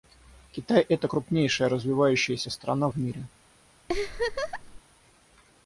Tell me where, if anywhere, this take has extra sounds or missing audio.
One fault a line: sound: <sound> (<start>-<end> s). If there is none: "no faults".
sound: laugh (3.9-4.8 s)